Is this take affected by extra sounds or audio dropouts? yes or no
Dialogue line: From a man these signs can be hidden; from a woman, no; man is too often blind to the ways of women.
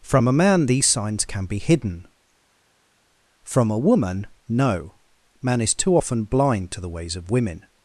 no